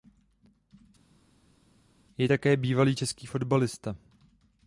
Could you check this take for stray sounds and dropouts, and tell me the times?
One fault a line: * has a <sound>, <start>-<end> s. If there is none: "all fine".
all fine